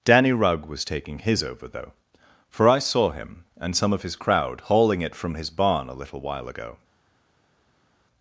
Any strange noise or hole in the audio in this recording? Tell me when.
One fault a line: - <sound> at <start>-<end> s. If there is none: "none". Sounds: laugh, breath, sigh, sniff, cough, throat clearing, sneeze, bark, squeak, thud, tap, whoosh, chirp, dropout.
none